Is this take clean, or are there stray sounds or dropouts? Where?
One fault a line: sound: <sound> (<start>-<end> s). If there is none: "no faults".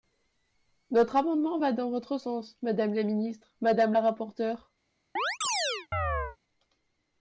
sound: chirp (5.2-6.4 s)